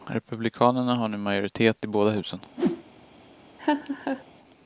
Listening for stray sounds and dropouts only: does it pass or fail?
fail